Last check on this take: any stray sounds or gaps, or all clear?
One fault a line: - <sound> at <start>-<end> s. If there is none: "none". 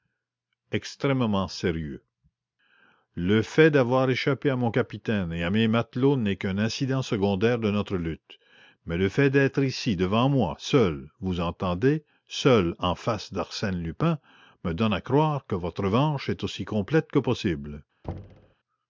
- thud at 18.0-18.6 s